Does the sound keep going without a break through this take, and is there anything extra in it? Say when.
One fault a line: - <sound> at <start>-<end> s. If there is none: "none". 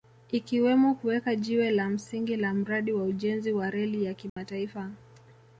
- dropout at 4.3-4.4 s